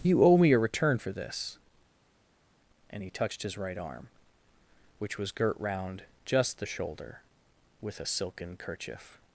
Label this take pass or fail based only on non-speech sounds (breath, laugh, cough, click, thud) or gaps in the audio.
pass